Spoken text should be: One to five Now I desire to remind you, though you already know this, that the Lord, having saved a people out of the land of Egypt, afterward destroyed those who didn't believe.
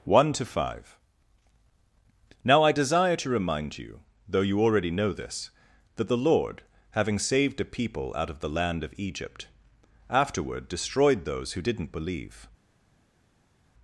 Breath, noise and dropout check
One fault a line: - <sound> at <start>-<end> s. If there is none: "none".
none